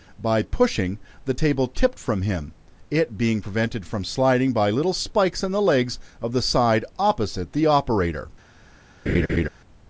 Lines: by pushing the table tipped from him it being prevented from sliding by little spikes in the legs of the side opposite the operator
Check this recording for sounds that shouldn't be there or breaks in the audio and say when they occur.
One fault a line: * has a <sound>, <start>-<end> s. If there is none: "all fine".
* has a laugh, 9.1-9.5 s